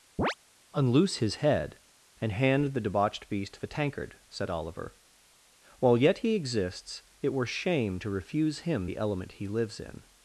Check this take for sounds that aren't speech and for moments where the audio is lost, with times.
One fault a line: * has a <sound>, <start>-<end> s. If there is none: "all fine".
* has a chirp, 0.2-0.3 s